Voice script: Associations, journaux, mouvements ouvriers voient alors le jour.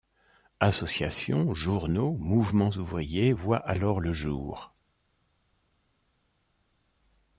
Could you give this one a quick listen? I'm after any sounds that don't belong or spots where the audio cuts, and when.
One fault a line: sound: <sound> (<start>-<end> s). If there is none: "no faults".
no faults